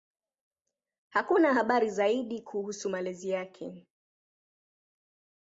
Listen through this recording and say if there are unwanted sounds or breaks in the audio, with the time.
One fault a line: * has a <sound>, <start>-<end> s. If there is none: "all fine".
all fine